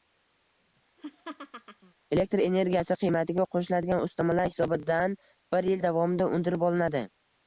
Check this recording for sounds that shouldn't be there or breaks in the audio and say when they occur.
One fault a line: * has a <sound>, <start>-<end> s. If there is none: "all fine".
* has a laugh, 1.0-1.9 s